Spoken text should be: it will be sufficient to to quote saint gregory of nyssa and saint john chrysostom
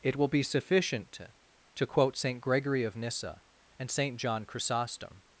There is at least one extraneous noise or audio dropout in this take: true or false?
false